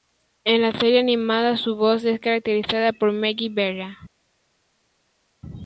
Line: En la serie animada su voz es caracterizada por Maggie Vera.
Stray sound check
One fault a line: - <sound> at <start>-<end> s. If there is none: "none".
none